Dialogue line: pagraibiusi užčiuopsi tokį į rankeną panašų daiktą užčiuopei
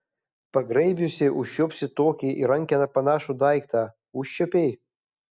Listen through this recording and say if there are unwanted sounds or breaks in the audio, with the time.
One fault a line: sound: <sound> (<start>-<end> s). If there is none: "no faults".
no faults